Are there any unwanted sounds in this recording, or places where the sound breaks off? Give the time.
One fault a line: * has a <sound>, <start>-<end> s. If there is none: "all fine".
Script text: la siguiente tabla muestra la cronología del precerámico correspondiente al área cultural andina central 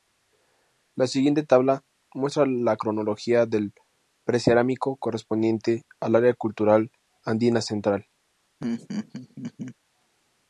* has a laugh, 8.6-9.8 s